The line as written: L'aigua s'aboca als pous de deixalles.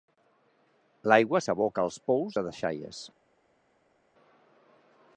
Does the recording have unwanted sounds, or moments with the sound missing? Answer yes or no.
no